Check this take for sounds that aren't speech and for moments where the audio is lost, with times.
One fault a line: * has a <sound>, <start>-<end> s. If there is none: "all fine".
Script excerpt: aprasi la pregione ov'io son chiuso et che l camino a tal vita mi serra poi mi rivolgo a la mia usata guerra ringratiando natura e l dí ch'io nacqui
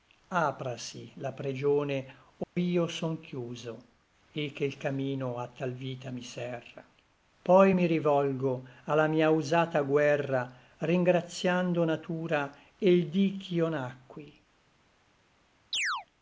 * has a dropout, 2.4-2.6 s
* has a chirp, 15.7-16.1 s